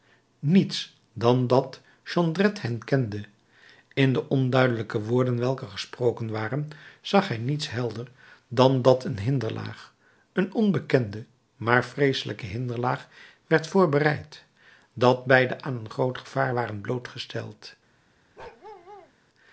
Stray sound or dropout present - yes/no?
yes